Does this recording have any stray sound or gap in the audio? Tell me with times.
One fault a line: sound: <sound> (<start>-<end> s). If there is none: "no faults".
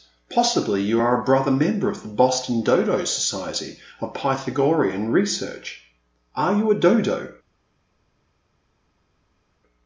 no faults